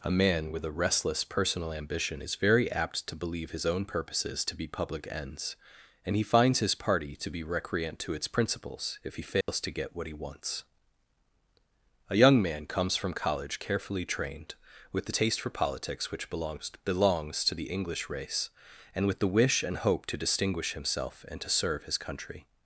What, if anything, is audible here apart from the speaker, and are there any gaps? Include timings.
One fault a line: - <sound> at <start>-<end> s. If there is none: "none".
- dropout at 9.4-9.5 s